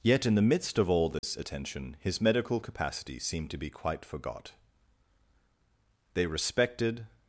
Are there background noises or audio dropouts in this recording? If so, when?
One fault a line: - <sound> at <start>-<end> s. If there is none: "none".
- dropout at 1.2-1.2 s